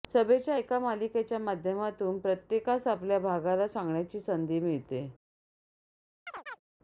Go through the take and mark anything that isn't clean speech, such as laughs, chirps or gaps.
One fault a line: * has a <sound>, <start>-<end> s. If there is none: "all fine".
* has a chirp, 6.3-6.6 s